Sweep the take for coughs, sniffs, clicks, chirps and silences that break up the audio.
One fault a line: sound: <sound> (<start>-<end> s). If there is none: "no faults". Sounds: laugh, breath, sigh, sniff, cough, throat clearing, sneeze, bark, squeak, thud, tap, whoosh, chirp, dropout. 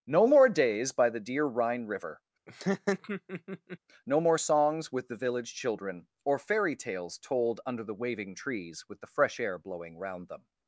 sound: laugh (2.5-3.8 s)